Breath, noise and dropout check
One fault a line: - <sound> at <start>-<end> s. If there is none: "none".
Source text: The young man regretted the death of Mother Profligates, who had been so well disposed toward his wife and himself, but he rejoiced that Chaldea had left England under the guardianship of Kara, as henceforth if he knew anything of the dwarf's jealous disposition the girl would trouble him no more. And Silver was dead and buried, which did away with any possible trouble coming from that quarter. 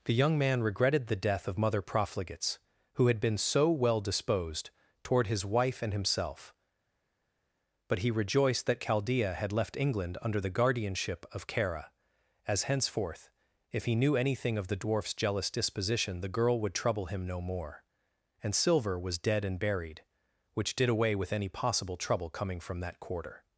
none